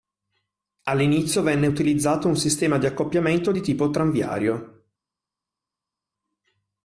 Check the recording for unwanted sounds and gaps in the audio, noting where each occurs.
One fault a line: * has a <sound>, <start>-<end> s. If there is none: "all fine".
all fine